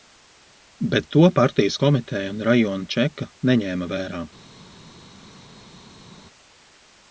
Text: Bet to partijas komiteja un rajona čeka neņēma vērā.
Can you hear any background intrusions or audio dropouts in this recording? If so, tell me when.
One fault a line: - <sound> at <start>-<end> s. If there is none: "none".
none